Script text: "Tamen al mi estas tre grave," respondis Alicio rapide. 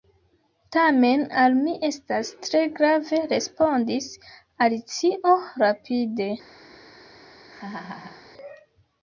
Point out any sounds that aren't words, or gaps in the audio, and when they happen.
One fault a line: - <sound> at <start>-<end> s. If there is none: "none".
- laugh at 7.5-8.3 s